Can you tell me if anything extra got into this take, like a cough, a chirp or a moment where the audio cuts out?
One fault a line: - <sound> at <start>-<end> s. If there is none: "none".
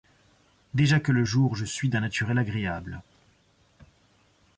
none